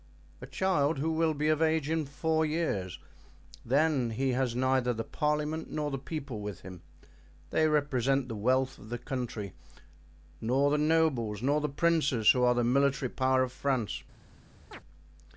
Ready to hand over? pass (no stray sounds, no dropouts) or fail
fail